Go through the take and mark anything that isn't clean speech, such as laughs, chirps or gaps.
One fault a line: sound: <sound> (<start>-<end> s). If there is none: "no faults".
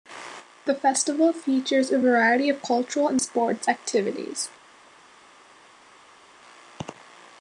no faults